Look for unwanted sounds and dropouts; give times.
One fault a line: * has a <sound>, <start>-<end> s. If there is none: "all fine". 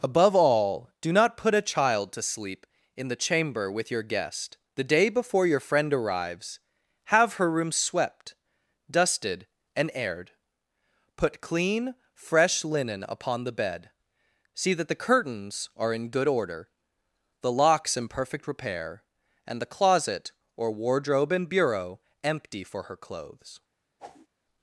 * has a whoosh, 24.0-24.3 s